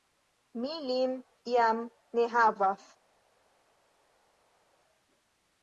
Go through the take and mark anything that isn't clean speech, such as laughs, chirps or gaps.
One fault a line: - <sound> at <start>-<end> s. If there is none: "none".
none